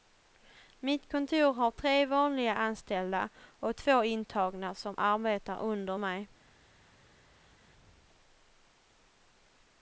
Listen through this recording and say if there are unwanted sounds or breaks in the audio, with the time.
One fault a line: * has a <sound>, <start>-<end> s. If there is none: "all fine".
all fine